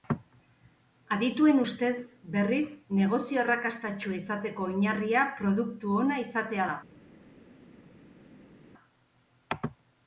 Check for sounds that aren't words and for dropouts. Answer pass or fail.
pass